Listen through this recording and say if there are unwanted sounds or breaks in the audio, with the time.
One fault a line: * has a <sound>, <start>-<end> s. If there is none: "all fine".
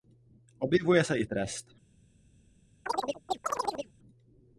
* has a chirp, 2.9-3.9 s